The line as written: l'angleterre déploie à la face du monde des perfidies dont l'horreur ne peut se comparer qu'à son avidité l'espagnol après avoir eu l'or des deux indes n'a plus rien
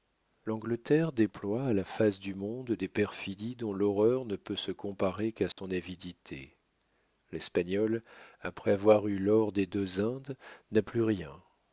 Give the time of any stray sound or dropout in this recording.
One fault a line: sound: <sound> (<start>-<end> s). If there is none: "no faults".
sound: dropout (5.5-5.6 s)